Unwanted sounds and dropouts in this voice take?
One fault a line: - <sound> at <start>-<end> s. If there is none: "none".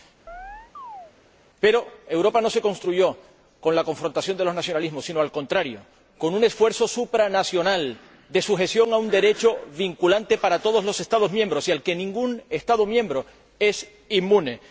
- chirp at 0.3-1.1 s